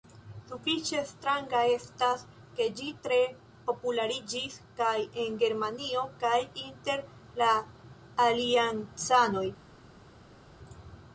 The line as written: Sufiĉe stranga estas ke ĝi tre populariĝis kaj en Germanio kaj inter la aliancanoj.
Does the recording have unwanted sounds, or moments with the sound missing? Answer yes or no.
no